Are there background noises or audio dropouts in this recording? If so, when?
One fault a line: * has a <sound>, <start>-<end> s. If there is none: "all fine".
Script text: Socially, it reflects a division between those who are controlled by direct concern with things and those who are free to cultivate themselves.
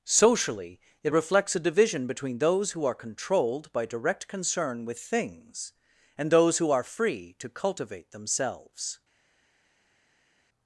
all fine